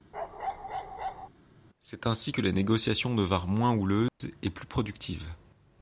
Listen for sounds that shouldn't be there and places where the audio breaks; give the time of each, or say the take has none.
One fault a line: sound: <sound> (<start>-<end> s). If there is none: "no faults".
sound: bark (0.1-1.3 s)
sound: dropout (4.1-4.2 s)